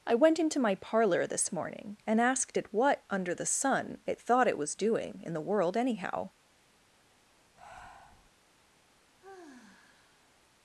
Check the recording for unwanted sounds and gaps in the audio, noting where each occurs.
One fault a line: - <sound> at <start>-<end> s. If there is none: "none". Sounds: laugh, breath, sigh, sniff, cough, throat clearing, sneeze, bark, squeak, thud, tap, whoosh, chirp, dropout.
- breath at 7.6-8.3 s
- sigh at 9.2-10.5 s